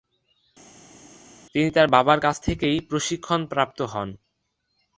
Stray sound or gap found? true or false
false